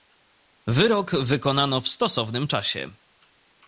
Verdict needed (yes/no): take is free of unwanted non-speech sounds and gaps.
yes